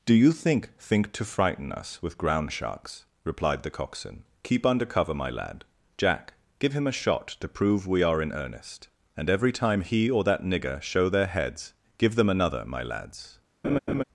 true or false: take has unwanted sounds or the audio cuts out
true